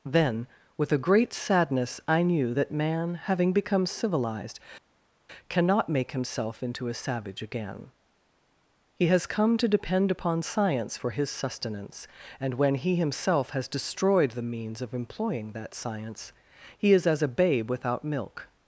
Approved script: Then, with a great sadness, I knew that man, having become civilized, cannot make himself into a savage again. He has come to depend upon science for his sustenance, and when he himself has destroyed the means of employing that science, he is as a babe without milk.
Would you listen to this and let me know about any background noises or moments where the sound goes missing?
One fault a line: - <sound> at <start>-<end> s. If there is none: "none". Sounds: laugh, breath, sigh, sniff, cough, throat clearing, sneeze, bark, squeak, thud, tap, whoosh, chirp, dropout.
none